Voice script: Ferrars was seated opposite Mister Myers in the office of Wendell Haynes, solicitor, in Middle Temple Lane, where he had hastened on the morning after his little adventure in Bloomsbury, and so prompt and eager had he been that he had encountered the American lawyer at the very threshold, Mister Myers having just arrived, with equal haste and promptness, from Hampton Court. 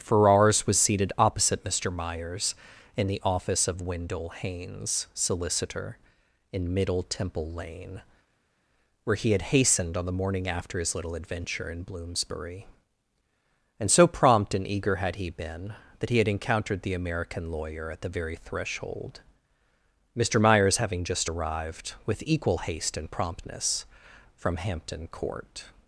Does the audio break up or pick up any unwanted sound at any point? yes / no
no